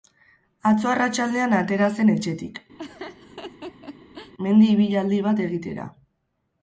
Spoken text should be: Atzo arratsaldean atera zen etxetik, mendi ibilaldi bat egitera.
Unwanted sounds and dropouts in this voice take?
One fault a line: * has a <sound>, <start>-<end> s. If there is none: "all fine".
* has a laugh, 2.8-4.3 s